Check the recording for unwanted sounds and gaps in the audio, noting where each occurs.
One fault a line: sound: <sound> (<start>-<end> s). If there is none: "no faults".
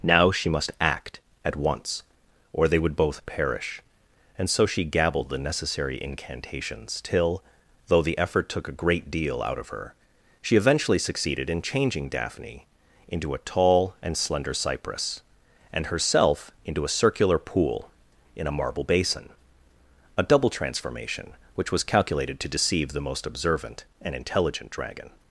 no faults